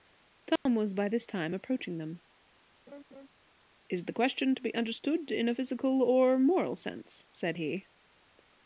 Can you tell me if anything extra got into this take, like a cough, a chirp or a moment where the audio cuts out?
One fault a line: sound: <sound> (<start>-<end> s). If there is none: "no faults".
sound: dropout (0.6-0.7 s)
sound: laugh (2.9-3.3 s)